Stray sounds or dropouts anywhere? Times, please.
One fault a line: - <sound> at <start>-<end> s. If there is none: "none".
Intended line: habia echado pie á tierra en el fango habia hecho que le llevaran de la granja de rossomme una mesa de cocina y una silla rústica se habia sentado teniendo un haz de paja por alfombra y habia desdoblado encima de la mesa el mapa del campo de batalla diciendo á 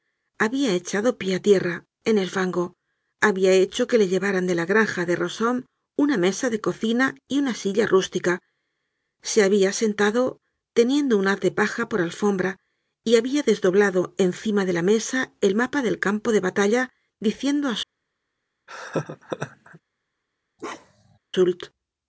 - laugh at 18.7-19.8 s
- bark at 20.6-21.2 s